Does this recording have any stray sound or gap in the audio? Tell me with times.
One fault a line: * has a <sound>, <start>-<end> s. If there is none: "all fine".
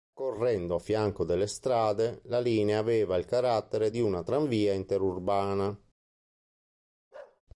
* has a bark, 7.1-7.4 s